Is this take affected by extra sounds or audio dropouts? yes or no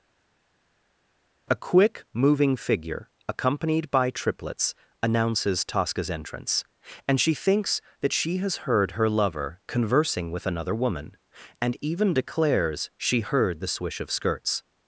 no